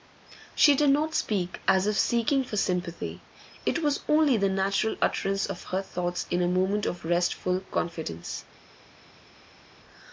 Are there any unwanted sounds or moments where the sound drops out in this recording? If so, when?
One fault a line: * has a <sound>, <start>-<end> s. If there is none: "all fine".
all fine